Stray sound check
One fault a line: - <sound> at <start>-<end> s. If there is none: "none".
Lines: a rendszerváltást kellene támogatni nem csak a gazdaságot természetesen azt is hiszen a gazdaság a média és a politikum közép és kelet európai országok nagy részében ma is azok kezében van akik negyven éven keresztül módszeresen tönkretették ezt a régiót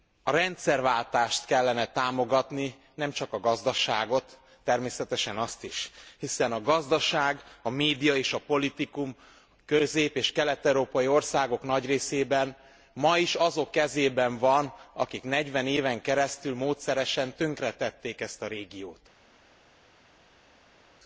none